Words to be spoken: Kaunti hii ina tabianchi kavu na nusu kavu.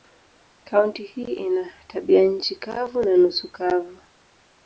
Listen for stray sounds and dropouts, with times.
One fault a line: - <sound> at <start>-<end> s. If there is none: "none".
none